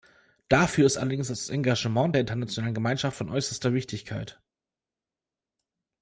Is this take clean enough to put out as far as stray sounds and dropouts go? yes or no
yes